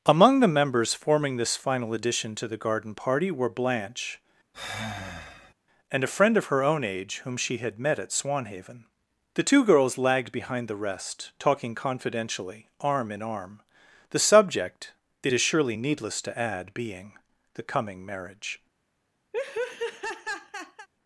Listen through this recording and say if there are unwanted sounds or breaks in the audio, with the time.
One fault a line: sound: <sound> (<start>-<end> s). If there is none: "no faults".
sound: sigh (4.5-5.5 s)
sound: laugh (19.3-20.9 s)